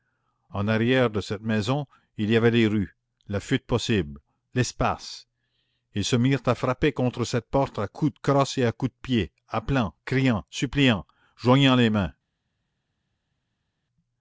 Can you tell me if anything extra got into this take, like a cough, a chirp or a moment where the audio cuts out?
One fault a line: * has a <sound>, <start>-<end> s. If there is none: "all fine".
all fine